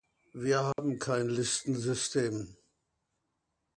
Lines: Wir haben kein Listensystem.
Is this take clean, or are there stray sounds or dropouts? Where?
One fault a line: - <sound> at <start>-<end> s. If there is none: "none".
- dropout at 0.7-0.8 s